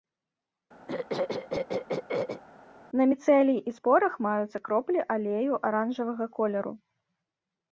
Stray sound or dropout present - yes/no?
yes